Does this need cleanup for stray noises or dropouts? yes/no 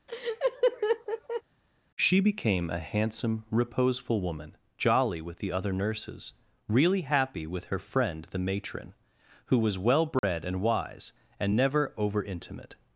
yes